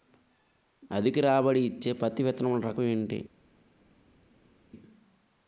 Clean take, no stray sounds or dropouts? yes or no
yes